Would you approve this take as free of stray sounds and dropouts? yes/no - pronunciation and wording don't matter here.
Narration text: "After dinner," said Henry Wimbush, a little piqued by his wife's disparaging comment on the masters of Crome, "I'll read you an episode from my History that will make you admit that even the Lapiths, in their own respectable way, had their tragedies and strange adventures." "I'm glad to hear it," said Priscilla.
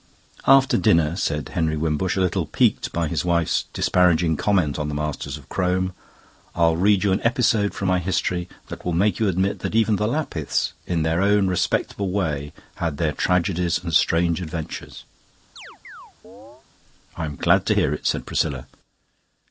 no